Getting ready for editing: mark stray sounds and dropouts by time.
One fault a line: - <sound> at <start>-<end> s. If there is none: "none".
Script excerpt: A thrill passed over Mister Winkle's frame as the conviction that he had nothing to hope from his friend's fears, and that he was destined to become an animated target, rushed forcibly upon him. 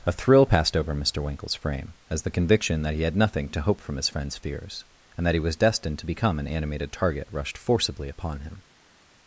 none